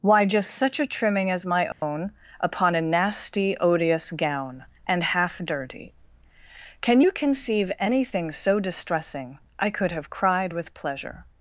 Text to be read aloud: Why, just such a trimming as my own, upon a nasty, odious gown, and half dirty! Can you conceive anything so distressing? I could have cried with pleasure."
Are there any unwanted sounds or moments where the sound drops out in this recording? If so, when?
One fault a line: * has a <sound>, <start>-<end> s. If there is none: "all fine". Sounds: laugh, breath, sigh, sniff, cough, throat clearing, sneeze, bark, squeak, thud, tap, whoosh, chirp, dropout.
* has a dropout, 1.7-1.8 s